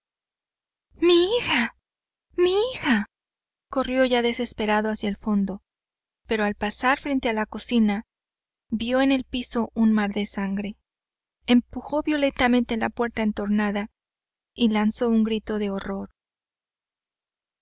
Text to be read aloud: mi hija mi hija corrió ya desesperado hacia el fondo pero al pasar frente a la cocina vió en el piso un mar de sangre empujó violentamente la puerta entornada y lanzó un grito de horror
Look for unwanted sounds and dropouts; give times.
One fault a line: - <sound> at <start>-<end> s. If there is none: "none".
none